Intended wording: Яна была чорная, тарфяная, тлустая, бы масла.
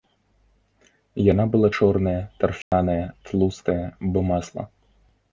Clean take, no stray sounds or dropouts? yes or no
no